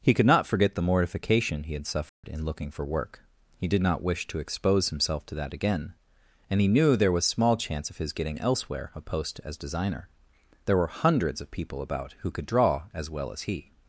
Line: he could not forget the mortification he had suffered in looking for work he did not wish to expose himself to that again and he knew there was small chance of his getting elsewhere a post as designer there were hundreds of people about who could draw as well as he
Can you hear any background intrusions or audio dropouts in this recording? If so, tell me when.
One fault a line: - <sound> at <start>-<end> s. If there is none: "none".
- dropout at 2.1-2.2 s